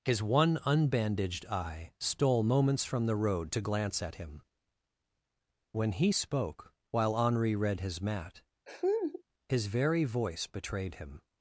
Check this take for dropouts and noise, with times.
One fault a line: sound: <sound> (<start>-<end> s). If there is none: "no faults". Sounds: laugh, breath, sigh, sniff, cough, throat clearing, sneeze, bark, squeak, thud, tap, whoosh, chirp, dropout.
sound: laugh (8.7-9.2 s)